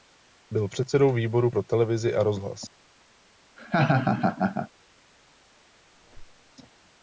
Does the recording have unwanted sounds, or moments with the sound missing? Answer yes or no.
yes